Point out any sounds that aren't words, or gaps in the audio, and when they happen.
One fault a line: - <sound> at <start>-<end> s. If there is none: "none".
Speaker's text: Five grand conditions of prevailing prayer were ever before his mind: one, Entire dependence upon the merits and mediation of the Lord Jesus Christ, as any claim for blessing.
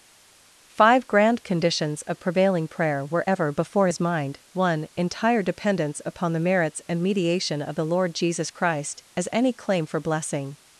none